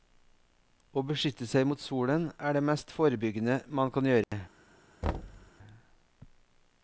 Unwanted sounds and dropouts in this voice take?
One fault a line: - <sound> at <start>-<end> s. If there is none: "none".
- dropout at 4.2-4.3 s
- thud at 5.0-5.5 s